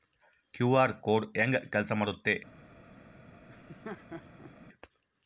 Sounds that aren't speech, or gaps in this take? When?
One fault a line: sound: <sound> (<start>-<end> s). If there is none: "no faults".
sound: laugh (3.5-4.5 s)